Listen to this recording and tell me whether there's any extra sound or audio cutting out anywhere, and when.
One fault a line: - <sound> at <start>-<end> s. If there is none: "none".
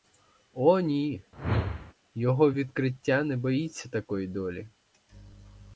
- whoosh at 1.3-1.9 s